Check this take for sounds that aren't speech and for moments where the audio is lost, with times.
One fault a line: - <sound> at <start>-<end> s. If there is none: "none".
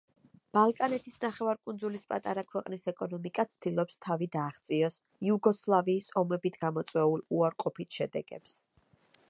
none